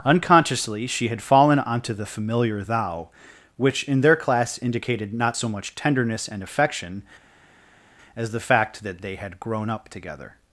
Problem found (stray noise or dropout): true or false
false